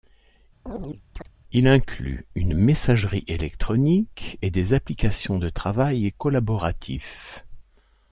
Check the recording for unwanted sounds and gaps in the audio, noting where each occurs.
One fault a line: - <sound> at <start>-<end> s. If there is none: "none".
- chirp at 0.7-1.3 s